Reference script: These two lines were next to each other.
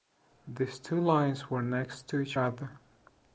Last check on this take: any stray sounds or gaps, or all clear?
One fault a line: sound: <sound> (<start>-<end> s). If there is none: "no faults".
no faults